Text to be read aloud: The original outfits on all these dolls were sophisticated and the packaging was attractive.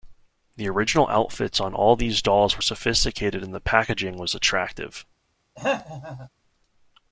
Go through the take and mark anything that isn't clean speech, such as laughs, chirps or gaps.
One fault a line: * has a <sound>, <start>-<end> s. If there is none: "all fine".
* has a throat clearing, 5.6-6.3 s